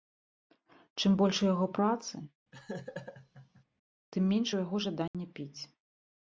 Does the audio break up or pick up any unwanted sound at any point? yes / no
yes